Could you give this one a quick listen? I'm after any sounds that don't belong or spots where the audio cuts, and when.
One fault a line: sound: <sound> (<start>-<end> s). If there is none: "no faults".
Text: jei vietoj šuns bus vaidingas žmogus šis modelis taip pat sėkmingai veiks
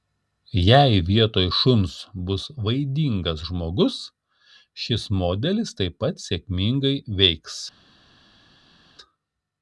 no faults